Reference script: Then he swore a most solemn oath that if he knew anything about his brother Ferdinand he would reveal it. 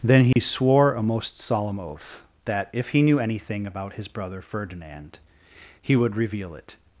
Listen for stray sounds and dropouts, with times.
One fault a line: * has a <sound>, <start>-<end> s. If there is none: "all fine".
* has a dropout, 0.3-0.4 s